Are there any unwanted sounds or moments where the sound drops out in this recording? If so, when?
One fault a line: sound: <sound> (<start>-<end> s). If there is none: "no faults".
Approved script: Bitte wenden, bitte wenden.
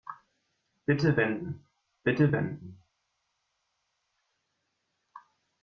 no faults